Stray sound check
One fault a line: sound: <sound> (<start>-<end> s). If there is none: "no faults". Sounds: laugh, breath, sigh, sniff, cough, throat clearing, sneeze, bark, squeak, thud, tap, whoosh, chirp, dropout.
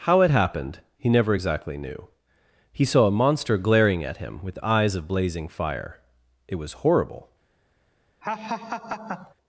sound: laugh (8.2-9.3 s)